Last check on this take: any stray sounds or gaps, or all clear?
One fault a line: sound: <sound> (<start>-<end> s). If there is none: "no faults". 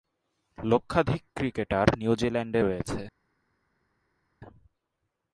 no faults